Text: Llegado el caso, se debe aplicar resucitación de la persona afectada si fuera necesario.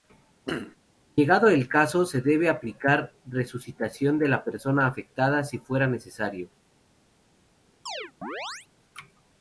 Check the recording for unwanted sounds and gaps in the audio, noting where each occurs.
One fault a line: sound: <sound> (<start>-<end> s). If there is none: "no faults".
sound: throat clearing (0.4-0.8 s)
sound: chirp (7.9-8.7 s)